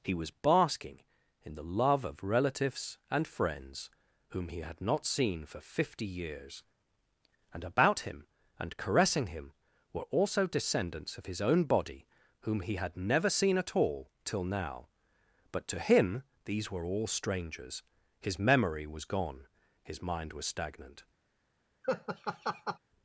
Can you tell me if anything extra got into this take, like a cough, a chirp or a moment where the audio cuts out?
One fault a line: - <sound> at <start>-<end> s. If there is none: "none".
- laugh at 21.8-22.8 s